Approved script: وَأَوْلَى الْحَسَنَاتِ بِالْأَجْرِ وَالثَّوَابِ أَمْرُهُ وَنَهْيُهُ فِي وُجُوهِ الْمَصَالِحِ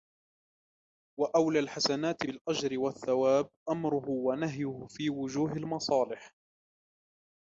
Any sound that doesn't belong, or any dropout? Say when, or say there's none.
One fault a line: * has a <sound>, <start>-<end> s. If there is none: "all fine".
all fine